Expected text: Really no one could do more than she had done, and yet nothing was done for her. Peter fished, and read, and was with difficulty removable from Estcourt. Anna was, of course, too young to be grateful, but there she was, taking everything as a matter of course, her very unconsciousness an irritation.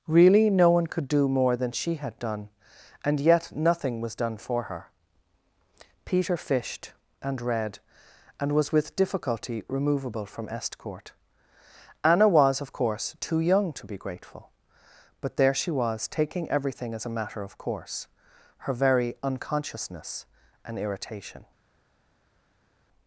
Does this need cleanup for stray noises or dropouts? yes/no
no